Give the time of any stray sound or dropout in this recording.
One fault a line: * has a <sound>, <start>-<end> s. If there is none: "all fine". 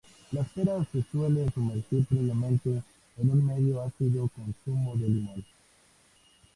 all fine